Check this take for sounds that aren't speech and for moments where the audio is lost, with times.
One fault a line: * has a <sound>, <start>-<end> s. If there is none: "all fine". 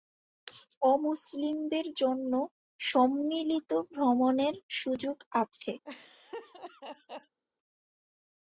* has a laugh, 5.8-7.4 s